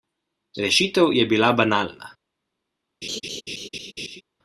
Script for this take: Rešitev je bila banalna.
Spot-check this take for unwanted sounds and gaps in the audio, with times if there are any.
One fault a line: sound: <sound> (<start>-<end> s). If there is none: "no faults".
sound: laugh (3.0-4.2 s)